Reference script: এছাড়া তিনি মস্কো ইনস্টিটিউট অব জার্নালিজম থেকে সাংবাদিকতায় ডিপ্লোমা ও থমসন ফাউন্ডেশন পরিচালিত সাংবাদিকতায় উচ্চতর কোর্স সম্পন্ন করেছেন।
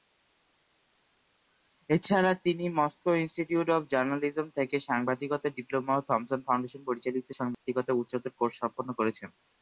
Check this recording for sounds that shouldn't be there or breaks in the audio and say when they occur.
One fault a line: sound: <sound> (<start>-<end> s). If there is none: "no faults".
sound: dropout (7.5-7.7 s)